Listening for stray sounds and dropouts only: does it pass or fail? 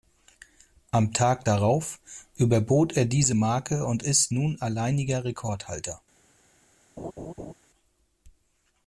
fail